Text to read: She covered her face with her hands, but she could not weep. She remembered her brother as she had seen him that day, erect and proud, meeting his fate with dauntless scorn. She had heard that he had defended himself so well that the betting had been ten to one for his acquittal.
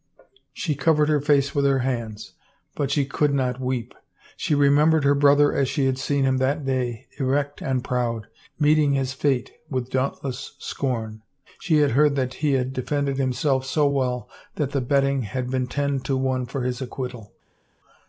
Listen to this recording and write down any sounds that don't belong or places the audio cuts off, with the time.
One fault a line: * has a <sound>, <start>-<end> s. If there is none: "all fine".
all fine